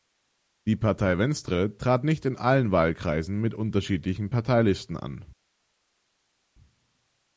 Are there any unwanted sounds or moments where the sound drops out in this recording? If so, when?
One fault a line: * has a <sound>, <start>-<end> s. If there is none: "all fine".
all fine